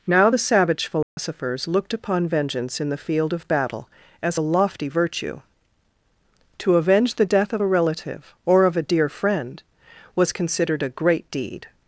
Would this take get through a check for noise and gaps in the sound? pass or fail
fail